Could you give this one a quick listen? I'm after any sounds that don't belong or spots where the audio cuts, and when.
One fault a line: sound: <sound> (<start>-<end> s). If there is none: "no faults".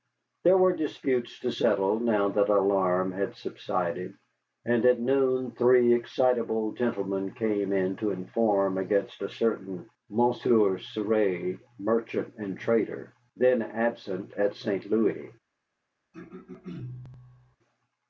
sound: throat clearing (16.1-17.6 s)